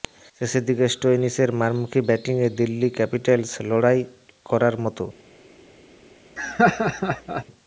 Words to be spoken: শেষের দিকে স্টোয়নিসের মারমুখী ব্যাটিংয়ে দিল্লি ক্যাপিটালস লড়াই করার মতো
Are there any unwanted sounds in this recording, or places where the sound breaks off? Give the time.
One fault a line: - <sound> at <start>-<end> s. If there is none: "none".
- laugh at 6.4-7.4 s